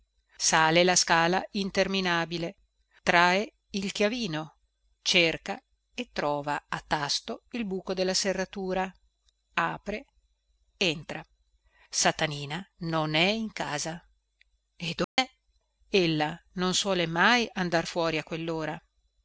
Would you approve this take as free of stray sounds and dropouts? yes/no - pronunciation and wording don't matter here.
no